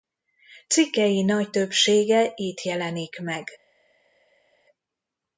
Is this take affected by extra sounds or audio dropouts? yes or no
no